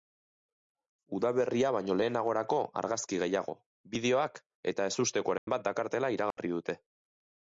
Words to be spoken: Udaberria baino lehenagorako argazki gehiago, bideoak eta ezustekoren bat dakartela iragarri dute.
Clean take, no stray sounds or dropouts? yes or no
no